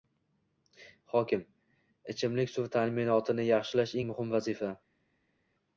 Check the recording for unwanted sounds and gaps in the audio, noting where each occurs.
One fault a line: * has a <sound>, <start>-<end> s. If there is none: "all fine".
all fine